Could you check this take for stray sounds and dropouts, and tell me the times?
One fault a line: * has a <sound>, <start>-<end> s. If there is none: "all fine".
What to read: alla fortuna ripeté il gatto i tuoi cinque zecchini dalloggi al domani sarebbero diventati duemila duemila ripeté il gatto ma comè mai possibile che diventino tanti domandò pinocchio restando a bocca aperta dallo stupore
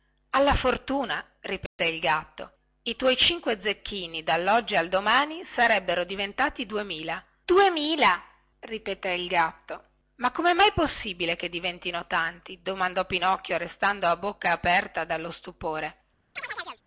* has a dropout, 1.7-1.8 s
* has a chirp, 16.4-16.8 s